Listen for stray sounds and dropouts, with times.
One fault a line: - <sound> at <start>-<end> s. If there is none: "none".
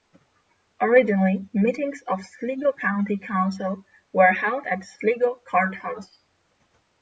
none